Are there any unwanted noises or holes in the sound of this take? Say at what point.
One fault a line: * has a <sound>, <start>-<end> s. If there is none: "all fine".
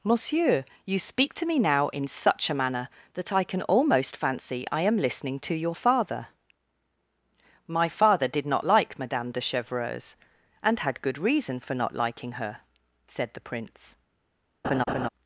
* has a laugh, 14.6-15.1 s